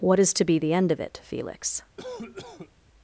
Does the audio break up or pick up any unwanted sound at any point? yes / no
yes